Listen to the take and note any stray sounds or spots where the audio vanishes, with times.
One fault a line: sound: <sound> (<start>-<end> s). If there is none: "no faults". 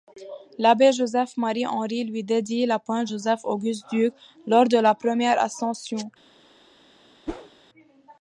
sound: whoosh (7.3-7.5 s)